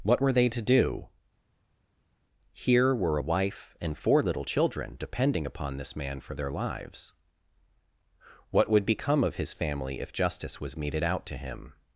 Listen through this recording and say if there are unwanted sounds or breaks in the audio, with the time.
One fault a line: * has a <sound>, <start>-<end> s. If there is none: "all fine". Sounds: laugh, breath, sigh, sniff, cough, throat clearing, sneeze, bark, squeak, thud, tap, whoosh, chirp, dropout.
all fine